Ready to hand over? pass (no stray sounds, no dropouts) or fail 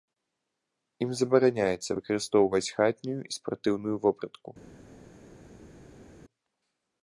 pass